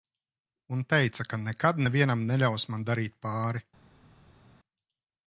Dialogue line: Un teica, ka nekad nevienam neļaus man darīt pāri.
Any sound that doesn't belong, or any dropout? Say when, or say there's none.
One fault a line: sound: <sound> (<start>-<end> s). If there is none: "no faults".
no faults